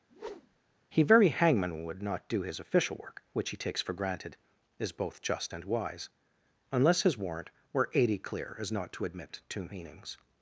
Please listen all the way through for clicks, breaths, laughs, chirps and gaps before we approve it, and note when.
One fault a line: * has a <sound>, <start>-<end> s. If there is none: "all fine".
* has a whoosh, 0.1-0.8 s